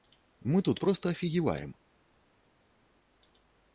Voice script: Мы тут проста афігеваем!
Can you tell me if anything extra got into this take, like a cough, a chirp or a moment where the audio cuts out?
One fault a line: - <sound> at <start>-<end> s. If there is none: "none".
none